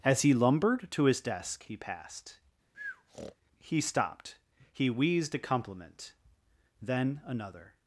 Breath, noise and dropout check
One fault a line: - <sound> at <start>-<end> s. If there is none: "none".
- breath at 2.7-3.4 s